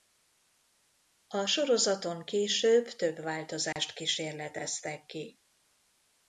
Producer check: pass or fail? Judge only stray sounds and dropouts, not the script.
fail